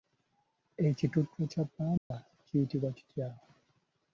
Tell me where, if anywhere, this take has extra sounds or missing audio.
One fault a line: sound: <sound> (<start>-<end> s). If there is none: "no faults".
sound: dropout (2.0-2.1 s)